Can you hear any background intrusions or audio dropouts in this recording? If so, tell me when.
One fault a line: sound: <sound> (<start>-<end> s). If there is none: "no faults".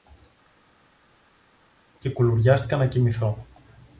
no faults